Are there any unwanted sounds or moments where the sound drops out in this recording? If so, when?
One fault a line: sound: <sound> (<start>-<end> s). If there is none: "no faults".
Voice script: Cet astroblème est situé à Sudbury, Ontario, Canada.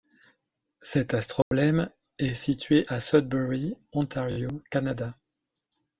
sound: dropout (1.4-1.5 s)